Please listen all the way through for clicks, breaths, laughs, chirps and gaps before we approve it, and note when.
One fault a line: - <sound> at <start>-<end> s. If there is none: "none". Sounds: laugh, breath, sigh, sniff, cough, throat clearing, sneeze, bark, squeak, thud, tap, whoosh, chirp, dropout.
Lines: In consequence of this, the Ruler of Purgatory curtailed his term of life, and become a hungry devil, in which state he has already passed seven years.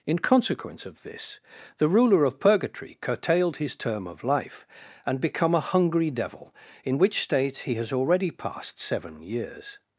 none